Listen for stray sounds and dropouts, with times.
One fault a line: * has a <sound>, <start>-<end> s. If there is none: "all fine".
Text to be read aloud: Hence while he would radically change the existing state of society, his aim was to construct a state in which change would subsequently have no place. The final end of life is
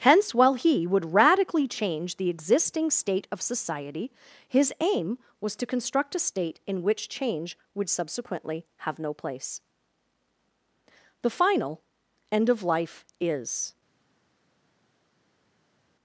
all fine